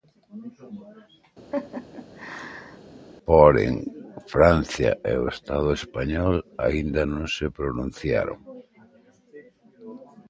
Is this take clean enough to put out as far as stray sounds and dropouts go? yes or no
no